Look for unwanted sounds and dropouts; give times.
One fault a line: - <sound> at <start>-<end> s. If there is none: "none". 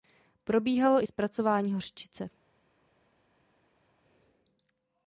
none